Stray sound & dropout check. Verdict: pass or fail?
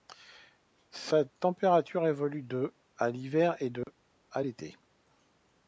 fail